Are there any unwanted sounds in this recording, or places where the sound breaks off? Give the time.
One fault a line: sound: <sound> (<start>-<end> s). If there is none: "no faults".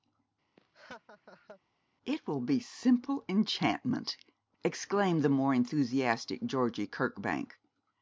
sound: laugh (0.6-1.6 s)